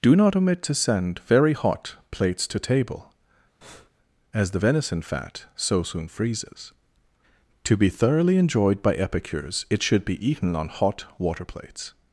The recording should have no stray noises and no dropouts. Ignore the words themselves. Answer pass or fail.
fail